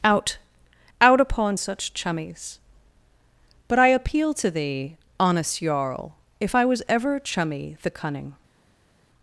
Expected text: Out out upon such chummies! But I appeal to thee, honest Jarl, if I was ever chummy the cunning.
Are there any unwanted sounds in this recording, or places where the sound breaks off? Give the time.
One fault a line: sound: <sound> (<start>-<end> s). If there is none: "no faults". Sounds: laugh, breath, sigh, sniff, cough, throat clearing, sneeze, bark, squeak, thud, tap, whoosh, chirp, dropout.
no faults